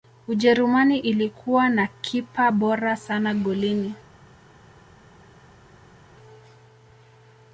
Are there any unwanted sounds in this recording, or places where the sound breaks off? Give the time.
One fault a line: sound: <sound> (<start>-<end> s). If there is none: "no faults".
no faults